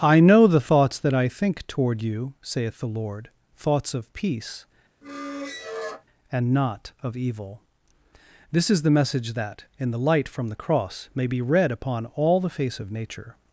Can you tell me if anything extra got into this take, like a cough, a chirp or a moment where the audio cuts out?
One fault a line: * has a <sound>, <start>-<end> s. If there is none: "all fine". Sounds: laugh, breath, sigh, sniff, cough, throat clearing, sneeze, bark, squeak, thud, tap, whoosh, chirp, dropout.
* has a squeak, 5.0-6.0 s